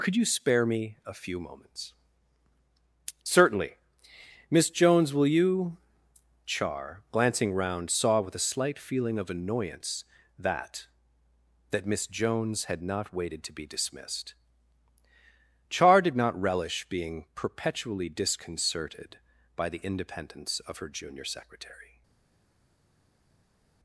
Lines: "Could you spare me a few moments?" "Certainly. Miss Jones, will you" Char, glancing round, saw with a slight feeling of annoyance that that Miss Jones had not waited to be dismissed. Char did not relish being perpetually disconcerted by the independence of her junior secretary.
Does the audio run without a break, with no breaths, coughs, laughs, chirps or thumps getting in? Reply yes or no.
yes